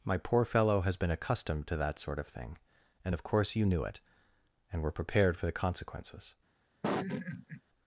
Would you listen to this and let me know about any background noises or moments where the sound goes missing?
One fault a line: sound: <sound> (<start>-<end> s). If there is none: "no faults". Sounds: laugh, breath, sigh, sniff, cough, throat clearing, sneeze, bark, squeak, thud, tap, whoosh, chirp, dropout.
sound: laugh (6.8-7.6 s)